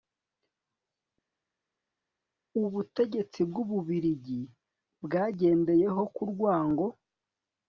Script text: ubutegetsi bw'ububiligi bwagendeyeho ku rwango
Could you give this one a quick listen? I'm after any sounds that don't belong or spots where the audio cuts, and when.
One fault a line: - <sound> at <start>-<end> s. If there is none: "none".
none